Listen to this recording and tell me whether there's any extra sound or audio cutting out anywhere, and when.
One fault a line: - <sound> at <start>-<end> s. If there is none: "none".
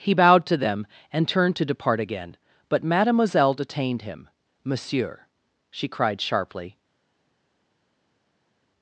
none